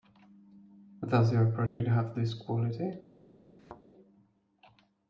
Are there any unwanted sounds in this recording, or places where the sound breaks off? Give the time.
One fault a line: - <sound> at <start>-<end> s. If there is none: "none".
- dropout at 1.7-1.8 s
- thud at 3.6-3.8 s